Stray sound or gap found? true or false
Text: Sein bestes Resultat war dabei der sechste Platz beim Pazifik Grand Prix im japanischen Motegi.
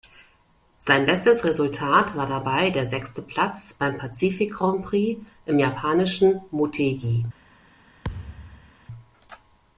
true